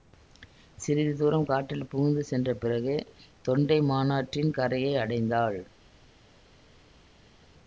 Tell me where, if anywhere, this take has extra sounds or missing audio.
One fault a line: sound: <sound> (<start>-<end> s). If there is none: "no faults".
no faults